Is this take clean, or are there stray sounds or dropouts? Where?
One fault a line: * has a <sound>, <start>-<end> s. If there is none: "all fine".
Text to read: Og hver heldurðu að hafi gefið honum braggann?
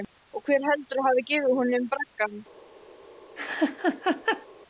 * has a laugh, 3.4-4.5 s